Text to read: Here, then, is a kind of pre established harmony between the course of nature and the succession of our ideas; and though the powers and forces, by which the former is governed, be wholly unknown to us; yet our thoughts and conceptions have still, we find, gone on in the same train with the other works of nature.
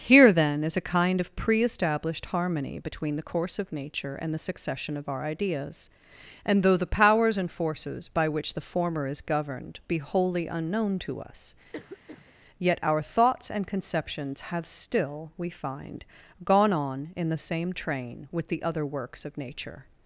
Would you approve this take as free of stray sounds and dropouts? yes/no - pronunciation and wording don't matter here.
no